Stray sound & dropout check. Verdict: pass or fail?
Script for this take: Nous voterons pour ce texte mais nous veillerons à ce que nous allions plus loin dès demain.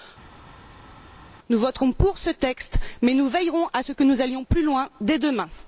pass